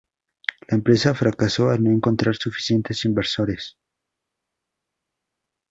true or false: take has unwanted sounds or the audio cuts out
false